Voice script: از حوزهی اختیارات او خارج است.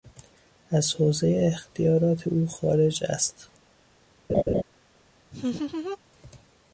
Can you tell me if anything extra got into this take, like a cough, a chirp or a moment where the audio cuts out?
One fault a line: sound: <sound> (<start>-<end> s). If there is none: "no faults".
sound: laugh (4.3-4.6 s)
sound: laugh (5.3-6.0 s)